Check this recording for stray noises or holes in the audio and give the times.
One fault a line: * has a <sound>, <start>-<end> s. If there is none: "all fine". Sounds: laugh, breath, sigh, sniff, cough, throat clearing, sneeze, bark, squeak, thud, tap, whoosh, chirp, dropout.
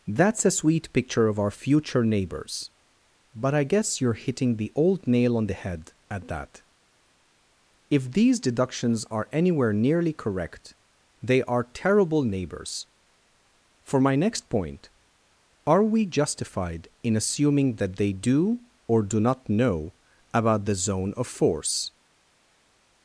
all fine